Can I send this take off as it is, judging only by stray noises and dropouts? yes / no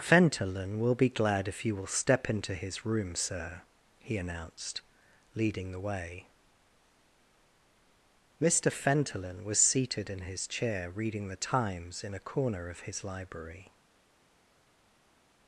yes